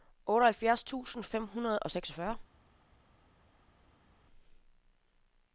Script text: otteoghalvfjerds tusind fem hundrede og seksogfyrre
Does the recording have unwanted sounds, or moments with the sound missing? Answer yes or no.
no